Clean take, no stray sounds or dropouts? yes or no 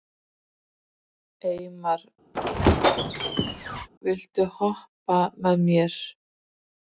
no